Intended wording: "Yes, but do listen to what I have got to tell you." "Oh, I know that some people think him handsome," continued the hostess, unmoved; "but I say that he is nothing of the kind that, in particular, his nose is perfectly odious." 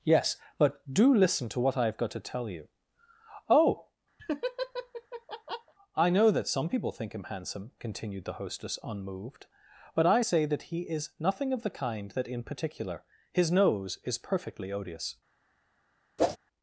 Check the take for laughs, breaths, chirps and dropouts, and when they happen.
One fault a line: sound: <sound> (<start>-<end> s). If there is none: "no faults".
sound: laugh (4.2-5.7 s)
sound: whoosh (16.2-16.4 s)